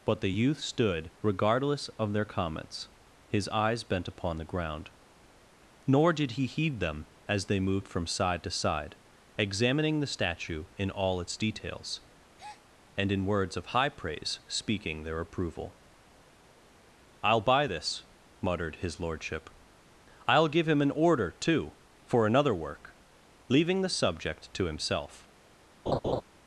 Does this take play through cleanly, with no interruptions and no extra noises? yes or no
no